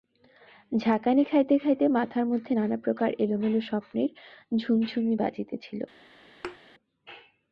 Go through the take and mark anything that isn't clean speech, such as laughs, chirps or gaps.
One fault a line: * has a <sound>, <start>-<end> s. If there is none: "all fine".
* has a thud, 6.4-6.6 s